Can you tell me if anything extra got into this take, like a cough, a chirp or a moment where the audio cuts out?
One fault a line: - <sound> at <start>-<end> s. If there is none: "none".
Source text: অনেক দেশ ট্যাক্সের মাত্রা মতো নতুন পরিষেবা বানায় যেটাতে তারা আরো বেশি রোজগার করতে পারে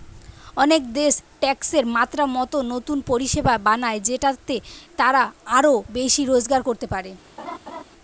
- laugh at 7.4-7.8 s